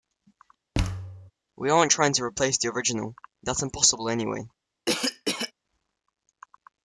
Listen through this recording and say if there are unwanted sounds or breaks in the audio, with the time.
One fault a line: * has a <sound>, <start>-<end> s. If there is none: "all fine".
* has a thud, 0.7-1.3 s
* has a cough, 4.9-5.5 s